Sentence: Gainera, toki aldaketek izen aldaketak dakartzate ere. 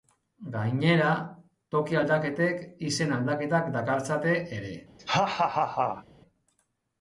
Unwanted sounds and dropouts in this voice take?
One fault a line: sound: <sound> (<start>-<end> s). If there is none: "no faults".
sound: laugh (5.0-6.0 s)